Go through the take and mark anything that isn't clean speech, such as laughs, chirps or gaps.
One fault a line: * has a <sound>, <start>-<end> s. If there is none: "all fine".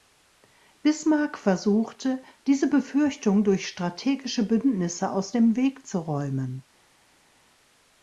all fine